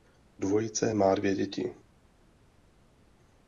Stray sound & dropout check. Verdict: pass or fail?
pass